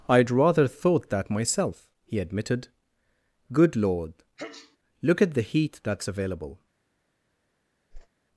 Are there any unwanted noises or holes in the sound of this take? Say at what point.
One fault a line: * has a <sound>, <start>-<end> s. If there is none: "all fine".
* has a sneeze, 4.4-4.8 s
* has a whoosh, 7.9-8.1 s